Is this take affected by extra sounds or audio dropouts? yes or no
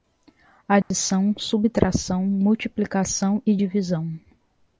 yes